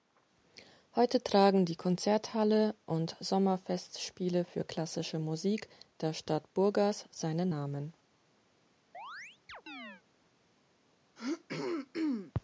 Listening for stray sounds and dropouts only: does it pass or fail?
fail